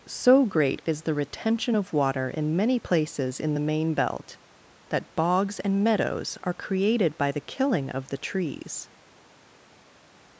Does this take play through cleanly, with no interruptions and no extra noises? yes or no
yes